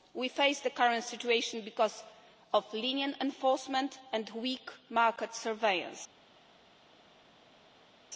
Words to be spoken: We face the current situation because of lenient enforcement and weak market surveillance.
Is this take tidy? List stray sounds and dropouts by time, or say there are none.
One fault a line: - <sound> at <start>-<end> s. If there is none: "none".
none